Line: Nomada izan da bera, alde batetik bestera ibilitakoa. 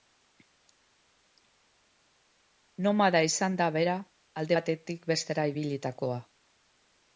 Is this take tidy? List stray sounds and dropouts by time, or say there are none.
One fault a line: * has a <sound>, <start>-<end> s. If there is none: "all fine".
all fine